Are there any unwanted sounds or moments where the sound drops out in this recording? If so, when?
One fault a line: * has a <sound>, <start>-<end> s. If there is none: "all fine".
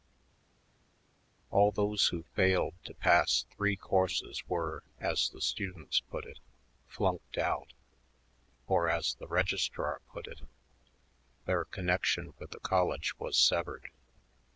all fine